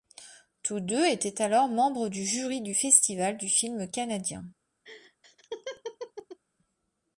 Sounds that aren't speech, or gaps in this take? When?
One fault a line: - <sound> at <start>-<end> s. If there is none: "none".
- laugh at 4.8-6.4 s